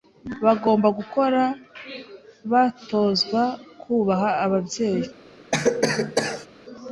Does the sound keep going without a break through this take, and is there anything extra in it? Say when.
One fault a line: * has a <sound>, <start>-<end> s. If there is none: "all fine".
* has a cough, 5.5-6.5 s